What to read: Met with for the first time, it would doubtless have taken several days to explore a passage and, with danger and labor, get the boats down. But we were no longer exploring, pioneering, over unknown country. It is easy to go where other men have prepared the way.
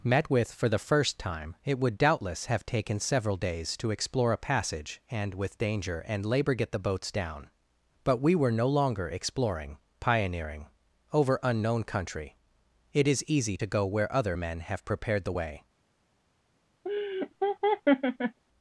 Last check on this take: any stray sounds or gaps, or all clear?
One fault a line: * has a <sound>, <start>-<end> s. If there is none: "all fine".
* has a laugh, 16.8-18.4 s